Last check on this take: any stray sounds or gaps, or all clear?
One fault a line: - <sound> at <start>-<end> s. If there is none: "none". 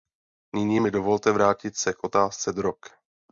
none